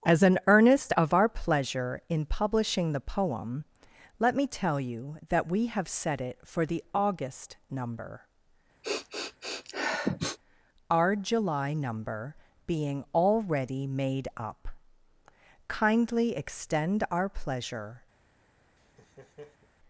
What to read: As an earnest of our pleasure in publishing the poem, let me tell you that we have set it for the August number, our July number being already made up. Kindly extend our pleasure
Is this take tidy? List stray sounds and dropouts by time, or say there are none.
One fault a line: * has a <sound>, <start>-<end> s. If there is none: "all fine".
* has a sniff, 8.8-10.4 s
* has a laugh, 18.8-19.7 s